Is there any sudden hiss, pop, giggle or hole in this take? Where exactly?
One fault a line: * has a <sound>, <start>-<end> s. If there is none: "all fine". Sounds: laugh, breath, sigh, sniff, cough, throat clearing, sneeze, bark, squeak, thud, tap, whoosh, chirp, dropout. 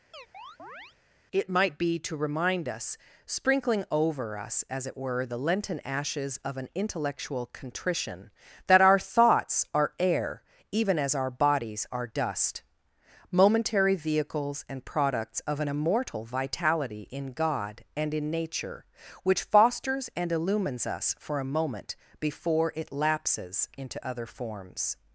* has a chirp, 0.1-1.0 s